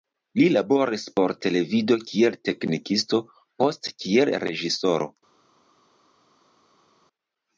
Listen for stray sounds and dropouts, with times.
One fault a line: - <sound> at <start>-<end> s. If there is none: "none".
none